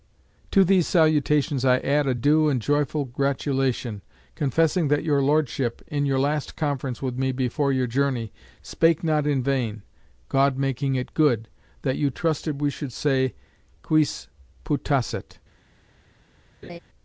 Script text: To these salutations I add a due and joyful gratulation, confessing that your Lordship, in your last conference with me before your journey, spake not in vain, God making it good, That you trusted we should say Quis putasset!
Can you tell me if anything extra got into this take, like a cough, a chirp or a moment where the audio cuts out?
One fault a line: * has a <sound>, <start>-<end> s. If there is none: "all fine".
* has a laugh, 16.6-16.8 s